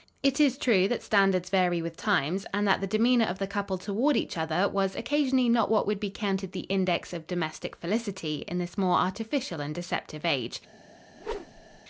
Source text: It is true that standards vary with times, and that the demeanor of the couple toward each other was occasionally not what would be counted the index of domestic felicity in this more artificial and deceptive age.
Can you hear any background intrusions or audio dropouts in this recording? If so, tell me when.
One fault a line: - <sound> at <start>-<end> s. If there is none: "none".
- whoosh at 11.1-11.8 s